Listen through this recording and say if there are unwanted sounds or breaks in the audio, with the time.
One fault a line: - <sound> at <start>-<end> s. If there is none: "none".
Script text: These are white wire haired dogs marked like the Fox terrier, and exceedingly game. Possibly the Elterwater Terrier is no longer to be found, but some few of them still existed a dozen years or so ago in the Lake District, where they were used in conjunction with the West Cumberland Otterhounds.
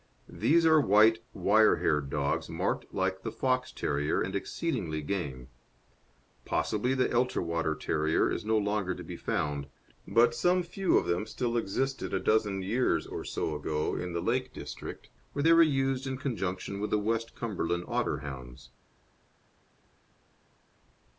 none